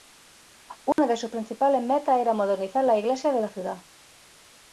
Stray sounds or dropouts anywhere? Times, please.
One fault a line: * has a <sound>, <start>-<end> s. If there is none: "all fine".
* has a dropout, 0.9-1.0 s